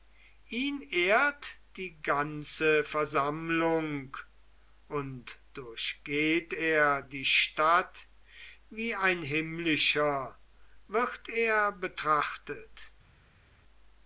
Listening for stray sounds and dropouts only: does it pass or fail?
pass